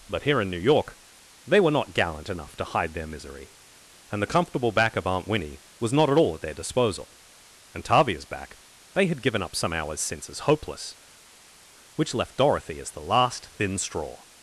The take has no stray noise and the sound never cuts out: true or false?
true